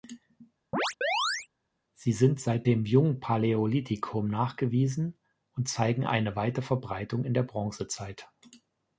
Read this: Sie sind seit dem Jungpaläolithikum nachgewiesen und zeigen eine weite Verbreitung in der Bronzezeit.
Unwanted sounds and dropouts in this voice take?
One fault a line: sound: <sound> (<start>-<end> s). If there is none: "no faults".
sound: chirp (0.7-1.5 s)